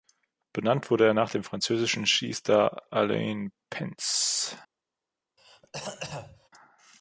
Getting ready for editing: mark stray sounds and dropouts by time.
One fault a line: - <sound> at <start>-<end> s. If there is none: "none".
- throat clearing at 5.4-6.5 s